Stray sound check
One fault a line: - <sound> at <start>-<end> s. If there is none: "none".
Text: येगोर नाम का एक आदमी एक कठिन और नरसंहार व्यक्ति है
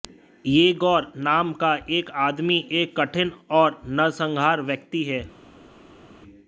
none